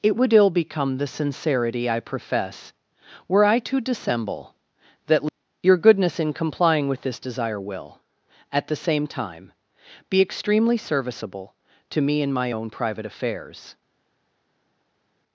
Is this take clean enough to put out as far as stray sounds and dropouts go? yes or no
yes